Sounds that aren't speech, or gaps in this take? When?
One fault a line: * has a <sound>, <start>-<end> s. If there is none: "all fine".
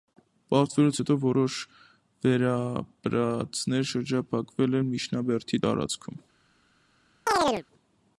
* has a chirp, 7.3-7.6 s